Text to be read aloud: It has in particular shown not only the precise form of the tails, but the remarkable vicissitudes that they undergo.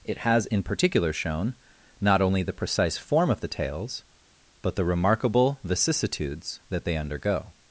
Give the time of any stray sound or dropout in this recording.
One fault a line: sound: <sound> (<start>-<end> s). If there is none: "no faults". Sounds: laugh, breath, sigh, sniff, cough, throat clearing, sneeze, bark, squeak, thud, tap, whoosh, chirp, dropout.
no faults